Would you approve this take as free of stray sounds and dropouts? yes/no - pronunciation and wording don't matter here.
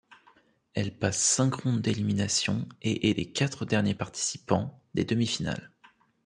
yes